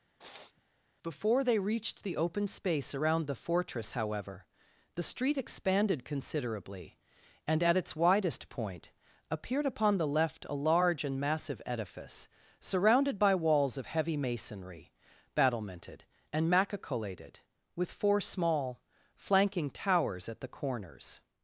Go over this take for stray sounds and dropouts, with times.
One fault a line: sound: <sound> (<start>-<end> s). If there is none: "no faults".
sound: sniff (0.2-0.6 s)